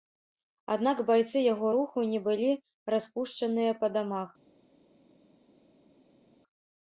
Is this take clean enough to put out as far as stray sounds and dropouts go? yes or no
yes